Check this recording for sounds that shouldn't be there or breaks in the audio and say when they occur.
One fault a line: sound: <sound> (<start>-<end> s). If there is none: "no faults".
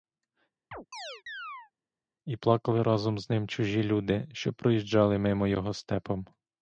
sound: chirp (0.7-1.7 s)